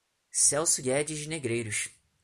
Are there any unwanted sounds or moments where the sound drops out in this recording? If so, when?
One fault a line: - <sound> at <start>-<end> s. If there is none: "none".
none